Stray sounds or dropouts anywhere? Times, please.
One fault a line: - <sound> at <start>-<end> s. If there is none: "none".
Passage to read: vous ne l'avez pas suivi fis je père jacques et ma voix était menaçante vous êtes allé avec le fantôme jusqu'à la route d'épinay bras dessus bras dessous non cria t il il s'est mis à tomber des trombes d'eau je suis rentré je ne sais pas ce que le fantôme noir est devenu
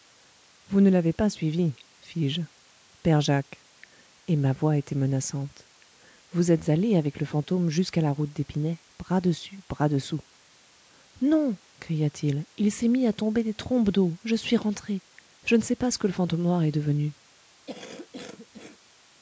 - cough at 17.7-18.8 s